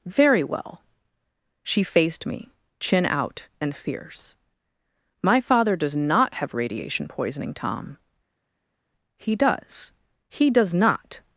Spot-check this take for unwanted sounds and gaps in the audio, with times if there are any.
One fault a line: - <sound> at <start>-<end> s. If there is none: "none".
none